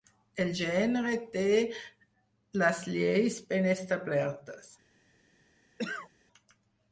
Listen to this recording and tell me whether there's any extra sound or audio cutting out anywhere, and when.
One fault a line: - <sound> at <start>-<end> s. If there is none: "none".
- cough at 5.8-6.1 s